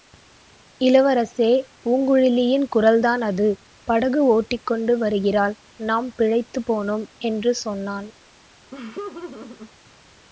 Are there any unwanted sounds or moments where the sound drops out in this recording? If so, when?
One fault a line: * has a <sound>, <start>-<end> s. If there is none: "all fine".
* has a laugh, 8.7-9.7 s